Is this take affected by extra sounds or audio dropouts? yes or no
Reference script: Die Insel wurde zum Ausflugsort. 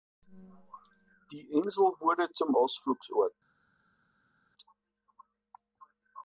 no